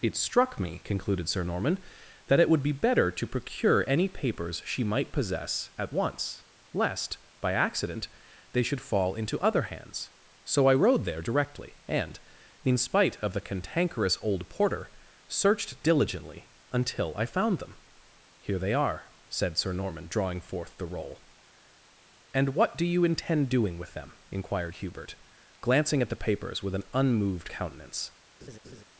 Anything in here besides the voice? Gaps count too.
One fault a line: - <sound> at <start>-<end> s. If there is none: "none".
- laugh at 28.4-28.8 s